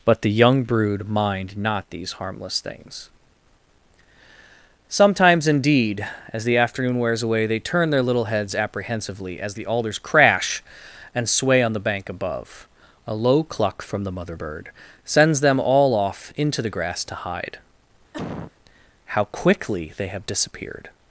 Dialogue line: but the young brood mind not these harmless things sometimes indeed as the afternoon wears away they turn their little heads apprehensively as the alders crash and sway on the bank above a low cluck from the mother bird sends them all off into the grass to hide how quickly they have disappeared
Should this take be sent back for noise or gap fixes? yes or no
yes